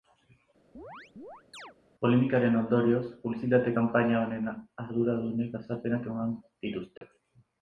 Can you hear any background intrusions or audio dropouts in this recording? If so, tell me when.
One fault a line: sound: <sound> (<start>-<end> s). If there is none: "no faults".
sound: chirp (0.7-1.8 s)
sound: dropout (7.0-7.0 s)